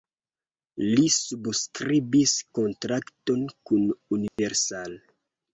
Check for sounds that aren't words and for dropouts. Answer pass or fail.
fail